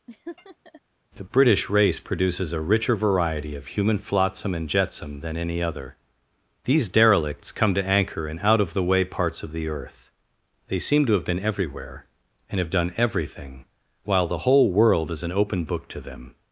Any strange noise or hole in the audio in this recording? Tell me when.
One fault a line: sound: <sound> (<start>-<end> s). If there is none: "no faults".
sound: laugh (0.1-0.8 s)